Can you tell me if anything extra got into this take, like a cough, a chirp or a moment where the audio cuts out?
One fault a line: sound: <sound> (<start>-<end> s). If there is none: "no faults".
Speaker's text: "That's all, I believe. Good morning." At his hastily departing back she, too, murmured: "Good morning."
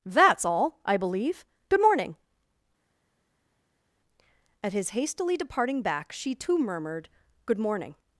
no faults